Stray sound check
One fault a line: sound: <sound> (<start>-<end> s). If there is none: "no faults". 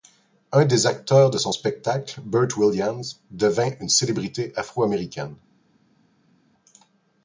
no faults